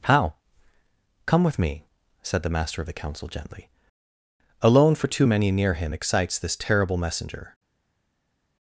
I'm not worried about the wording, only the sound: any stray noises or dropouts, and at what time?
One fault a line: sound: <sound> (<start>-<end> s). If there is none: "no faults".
no faults